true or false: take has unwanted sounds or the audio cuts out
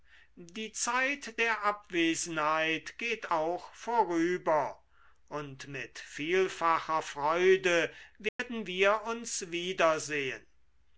true